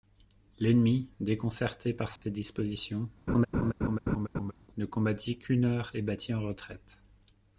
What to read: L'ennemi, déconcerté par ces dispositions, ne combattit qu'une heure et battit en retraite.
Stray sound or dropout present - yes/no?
yes